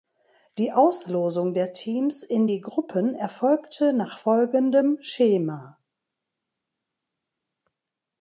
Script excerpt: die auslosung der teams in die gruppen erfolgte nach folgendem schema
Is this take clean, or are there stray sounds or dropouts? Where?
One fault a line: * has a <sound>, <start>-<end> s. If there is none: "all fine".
all fine